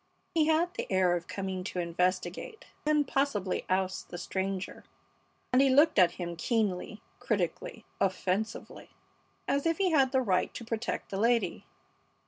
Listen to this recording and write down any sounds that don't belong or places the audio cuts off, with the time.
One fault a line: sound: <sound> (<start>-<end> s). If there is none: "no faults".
no faults